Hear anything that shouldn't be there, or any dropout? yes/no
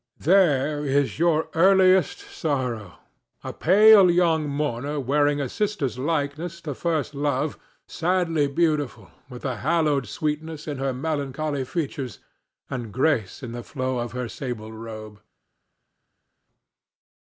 no